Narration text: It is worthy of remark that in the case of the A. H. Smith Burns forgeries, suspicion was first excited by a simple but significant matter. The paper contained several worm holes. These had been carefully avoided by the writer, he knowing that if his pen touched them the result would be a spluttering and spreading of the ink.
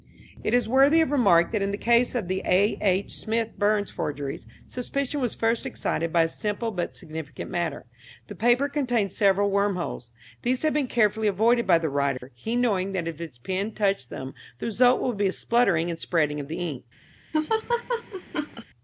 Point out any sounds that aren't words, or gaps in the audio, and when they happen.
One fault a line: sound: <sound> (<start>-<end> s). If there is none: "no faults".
sound: dropout (12.2-12.2 s)
sound: laugh (17.3-18.6 s)